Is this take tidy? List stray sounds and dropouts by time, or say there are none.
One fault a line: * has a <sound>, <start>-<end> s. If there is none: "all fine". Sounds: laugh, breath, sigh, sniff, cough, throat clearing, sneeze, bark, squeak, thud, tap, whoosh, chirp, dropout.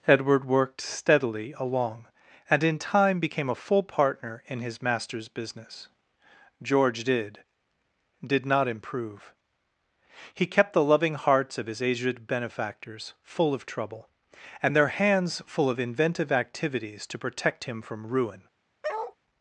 * has a bark, 18.8-19.2 s